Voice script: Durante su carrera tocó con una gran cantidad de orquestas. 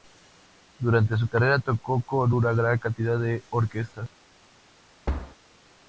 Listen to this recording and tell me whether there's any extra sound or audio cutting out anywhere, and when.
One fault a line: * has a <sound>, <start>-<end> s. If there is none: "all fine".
* has a thud, 5.1-5.4 s